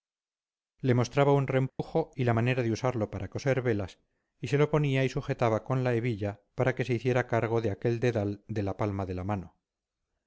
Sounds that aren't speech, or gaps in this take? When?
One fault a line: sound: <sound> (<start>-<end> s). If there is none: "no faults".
sound: dropout (1.7-1.8 s)